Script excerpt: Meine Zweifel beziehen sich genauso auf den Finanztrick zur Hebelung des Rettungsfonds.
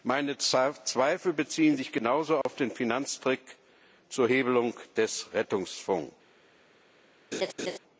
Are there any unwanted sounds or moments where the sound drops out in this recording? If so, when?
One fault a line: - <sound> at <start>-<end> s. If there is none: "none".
- dropout at 2.4-2.5 s
- laugh at 7.3-7.8 s